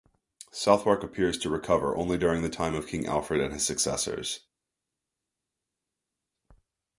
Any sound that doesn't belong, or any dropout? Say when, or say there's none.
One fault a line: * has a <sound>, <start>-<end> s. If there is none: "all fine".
all fine